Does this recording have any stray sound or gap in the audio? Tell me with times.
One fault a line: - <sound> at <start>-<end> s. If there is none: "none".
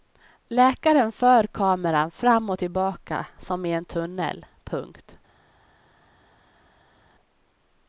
none